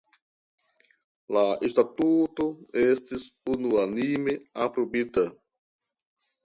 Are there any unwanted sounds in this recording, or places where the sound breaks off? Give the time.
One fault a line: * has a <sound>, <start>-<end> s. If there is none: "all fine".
all fine